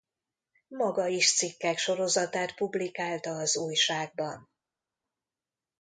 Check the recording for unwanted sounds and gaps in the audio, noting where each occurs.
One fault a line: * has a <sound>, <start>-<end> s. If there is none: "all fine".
all fine